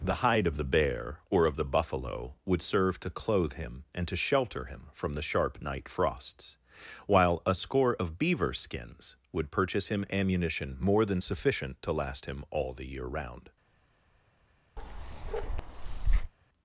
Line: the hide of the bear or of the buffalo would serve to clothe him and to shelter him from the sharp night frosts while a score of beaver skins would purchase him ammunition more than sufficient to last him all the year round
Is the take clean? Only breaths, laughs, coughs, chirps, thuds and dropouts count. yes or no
no